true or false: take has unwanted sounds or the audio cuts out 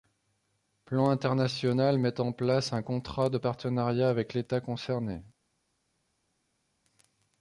false